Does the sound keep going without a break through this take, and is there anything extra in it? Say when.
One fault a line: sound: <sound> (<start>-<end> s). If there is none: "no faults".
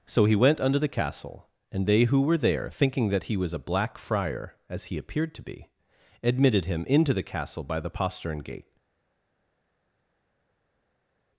no faults